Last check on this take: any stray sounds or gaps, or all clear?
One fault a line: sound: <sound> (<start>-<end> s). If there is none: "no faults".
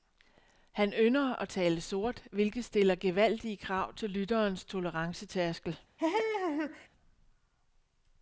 sound: laugh (6.0-6.9 s)